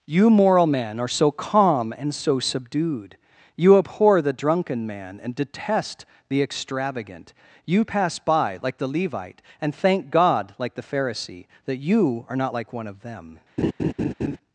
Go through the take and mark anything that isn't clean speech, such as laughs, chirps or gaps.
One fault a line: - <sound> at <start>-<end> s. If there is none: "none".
- laugh at 13.6-14.4 s